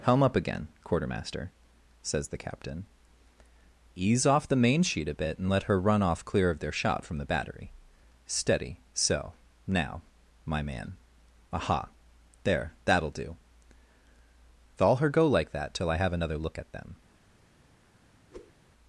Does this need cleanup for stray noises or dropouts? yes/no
yes